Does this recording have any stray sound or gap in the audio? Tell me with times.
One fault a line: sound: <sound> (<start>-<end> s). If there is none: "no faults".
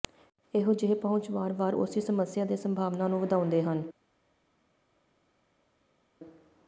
no faults